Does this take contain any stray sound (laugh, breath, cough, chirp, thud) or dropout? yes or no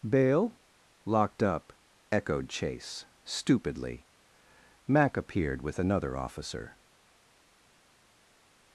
no